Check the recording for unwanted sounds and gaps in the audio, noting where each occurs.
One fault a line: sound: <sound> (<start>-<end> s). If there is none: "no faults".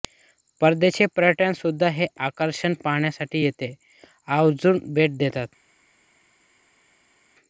no faults